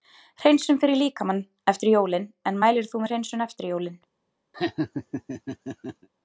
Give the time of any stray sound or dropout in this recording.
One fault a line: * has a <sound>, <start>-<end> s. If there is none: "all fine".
* has a laugh, 4.5-6.1 s